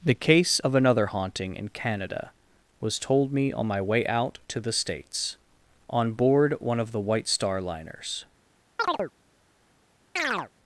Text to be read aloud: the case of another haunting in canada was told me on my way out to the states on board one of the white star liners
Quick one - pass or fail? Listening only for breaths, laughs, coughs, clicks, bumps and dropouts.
fail